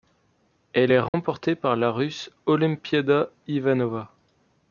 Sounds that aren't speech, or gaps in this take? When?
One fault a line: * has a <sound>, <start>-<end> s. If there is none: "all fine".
* has a dropout, 1.1-1.1 s